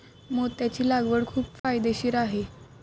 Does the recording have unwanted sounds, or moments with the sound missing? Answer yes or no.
yes